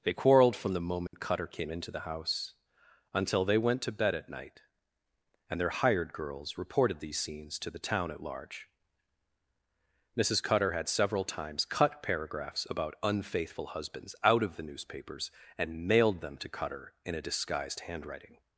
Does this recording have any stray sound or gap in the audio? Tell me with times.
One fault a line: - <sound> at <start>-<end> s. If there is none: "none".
- dropout at 1.1-1.1 s